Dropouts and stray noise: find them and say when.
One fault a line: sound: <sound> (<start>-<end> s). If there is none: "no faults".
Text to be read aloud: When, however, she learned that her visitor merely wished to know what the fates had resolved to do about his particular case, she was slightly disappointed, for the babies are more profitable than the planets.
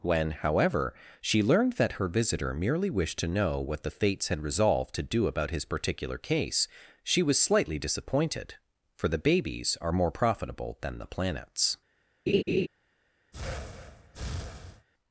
sound: laugh (12.3-12.7 s)
sound: breath (13.3-14.9 s)